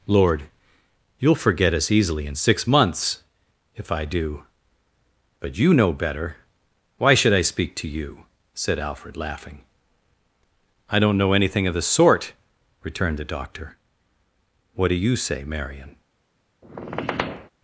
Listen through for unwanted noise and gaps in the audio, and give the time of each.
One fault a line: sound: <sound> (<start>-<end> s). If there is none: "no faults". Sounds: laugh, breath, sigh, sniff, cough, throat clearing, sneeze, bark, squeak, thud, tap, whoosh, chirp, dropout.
sound: squeak (16.6-17.5 s)